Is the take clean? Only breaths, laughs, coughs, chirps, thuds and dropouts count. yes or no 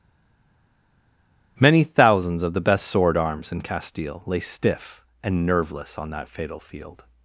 yes